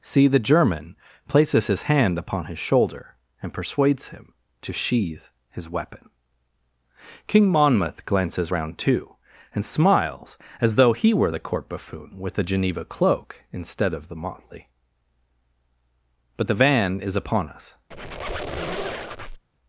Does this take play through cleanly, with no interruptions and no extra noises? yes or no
no